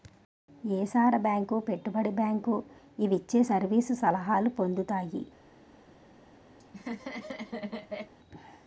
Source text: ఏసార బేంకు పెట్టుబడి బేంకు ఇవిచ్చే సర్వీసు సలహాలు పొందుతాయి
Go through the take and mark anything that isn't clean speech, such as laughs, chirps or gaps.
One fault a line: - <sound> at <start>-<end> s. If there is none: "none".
- laugh at 6.6-8.1 s